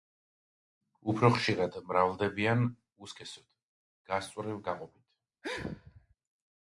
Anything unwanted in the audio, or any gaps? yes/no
yes